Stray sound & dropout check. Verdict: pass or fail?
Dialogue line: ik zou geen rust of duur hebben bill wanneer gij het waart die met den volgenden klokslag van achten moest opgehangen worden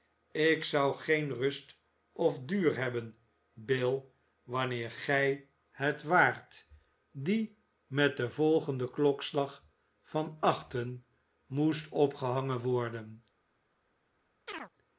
fail